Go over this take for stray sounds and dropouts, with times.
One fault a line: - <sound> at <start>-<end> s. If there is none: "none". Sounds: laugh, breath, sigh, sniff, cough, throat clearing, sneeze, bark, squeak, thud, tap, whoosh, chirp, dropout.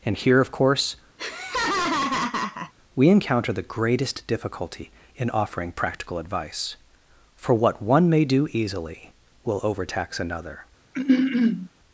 - laugh at 1.2-2.7 s
- throat clearing at 10.9-11.7 s